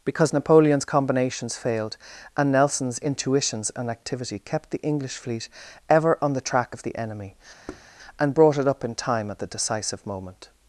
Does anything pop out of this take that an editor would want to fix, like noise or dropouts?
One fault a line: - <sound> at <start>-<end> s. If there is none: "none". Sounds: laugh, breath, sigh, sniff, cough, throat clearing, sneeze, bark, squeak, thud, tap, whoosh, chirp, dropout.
- thud at 7.7-7.9 s